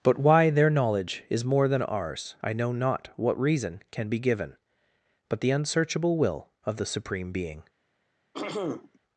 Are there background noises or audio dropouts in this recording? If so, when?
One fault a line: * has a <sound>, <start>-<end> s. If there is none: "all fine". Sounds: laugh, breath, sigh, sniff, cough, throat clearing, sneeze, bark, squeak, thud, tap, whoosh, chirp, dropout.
* has a throat clearing, 8.3-9.0 s